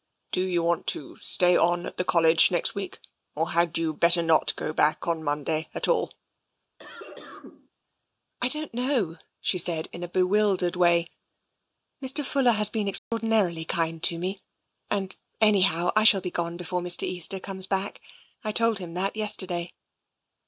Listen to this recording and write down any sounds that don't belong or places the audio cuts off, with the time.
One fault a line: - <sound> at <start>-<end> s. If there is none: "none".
- cough at 6.8-7.7 s
- dropout at 13.0-13.1 s